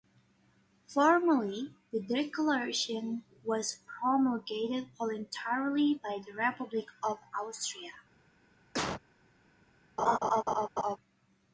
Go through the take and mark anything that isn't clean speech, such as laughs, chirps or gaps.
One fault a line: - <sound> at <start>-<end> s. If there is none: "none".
- cough at 8.7-9.0 s
- laugh at 10.0-11.0 s